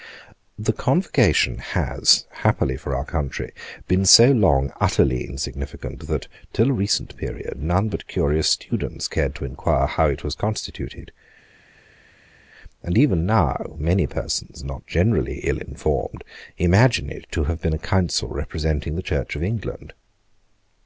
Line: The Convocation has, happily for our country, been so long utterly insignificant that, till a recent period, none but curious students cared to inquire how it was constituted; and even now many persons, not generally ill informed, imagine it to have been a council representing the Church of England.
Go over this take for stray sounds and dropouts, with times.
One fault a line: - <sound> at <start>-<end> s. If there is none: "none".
none